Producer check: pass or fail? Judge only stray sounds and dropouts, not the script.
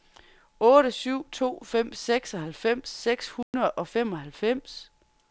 fail